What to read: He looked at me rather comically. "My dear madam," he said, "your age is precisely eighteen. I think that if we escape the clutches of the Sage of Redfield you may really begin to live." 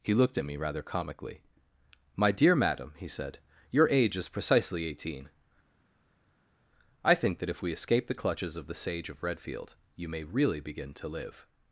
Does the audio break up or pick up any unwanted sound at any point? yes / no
no